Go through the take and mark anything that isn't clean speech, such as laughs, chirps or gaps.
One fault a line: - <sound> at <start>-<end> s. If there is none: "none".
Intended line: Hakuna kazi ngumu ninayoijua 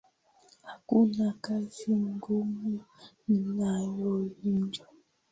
none